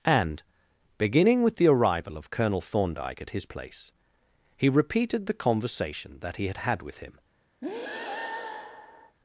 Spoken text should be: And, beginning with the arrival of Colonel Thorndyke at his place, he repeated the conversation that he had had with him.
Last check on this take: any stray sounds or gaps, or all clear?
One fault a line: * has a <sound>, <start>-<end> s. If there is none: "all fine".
* has a breath, 7.6-9.2 s